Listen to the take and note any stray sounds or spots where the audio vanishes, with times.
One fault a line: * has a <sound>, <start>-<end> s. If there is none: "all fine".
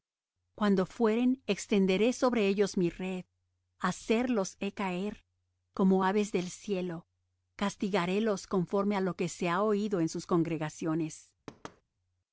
* has a thud, 11.5-11.8 s